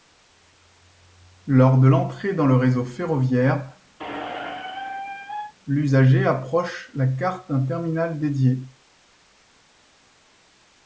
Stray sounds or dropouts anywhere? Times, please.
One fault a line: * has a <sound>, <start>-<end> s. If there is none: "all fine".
* has a squeak, 4.0-5.5 s